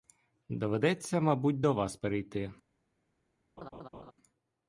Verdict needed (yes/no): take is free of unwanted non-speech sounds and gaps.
no